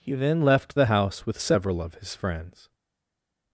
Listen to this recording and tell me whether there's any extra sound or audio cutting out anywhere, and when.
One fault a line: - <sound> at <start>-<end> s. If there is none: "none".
none